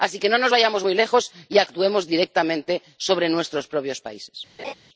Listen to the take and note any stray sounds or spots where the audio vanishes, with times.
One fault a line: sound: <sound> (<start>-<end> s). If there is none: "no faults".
sound: laugh (4.6-4.7 s)